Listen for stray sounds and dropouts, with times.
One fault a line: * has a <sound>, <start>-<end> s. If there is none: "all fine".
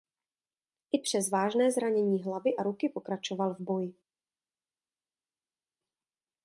all fine